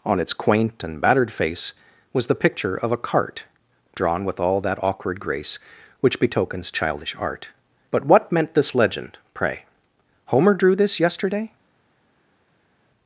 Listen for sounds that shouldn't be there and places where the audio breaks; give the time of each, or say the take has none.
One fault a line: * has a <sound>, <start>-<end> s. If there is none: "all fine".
all fine